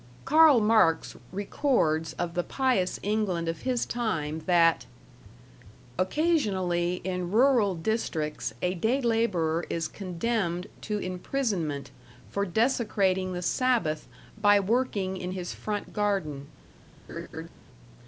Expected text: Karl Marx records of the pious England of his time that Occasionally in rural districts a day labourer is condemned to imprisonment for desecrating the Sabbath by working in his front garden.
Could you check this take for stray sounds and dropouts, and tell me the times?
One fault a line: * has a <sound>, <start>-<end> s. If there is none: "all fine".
* has a laugh, 17.1-17.5 s